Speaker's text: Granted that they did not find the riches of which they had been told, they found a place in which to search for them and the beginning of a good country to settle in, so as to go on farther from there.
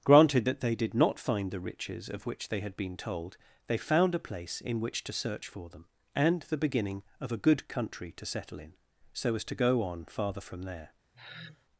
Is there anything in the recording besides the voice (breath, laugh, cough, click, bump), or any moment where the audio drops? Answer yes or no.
yes